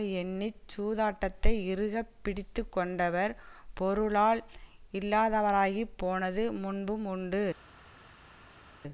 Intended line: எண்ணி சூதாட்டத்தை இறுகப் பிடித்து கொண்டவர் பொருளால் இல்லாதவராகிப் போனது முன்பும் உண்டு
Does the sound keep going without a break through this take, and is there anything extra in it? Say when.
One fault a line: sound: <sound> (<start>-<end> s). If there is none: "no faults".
no faults